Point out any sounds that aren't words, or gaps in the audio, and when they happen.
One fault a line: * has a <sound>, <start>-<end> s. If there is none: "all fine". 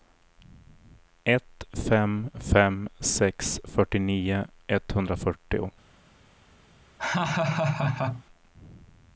* has a laugh, 7.0-8.2 s